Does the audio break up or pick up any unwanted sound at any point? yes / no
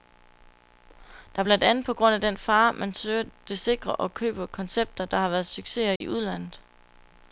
yes